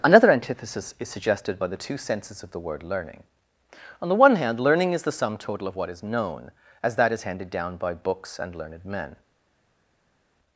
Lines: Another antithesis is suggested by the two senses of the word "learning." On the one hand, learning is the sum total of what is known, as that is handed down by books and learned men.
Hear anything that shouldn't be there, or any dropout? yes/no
no